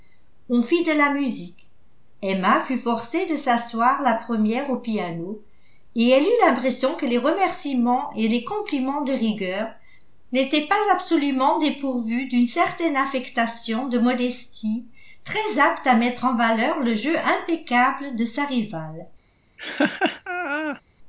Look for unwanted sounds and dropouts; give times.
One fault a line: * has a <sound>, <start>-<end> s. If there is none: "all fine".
* has a laugh, 19.6-20.8 s